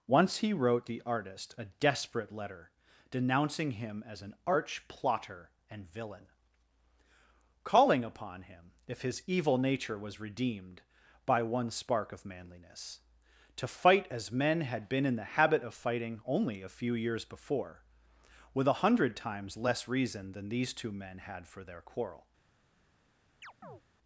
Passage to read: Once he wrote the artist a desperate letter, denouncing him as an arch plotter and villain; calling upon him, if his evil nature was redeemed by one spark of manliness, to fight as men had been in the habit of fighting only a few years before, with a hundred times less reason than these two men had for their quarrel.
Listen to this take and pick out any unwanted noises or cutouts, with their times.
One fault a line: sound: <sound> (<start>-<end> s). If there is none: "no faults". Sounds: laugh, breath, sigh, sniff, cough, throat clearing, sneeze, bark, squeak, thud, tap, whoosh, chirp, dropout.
sound: chirp (23.4-23.8 s)